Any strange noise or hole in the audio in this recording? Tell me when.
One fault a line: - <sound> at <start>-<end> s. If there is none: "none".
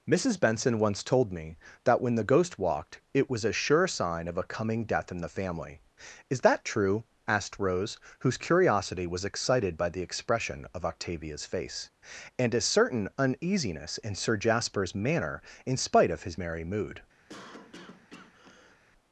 - cough at 17.3-18.8 s